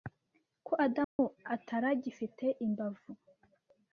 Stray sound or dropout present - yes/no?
yes